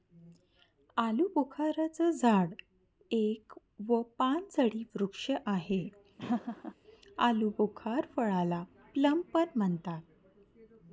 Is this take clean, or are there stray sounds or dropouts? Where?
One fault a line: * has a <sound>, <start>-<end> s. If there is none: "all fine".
* has a laugh, 6.2-6.7 s